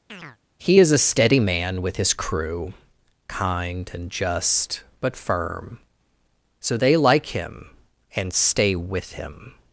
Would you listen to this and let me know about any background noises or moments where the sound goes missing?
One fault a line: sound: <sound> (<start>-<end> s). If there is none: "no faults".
sound: chirp (0.1-0.4 s)